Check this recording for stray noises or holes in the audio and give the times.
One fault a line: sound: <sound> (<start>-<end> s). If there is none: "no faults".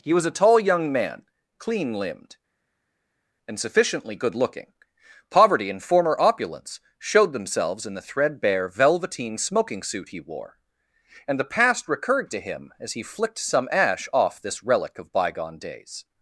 no faults